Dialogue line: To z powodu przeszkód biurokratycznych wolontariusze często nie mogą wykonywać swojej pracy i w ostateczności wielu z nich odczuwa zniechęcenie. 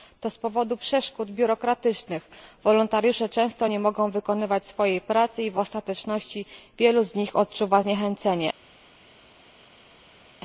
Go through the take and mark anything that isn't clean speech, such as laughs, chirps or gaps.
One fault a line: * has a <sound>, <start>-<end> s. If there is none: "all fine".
all fine